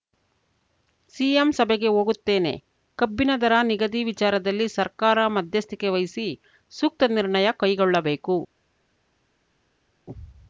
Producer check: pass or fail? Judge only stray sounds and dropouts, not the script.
pass